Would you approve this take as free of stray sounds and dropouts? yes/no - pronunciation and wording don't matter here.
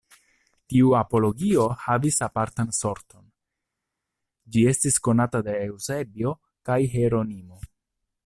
yes